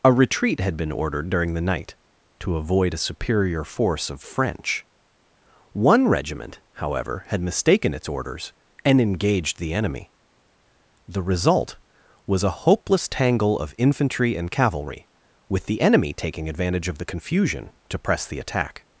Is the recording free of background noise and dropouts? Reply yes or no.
yes